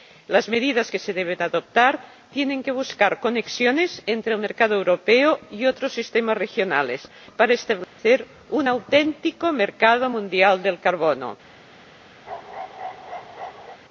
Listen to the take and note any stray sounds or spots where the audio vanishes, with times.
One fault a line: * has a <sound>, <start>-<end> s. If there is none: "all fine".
* has a dropout, 7.8-8.0 s
* has a bark, 12.3-13.8 s